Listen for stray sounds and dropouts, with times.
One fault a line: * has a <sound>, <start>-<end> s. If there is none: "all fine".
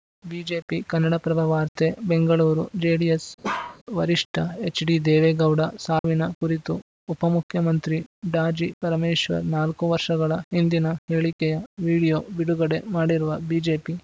* has a bark, 3.4-3.8 s
* has a dropout, 6.0-6.0 s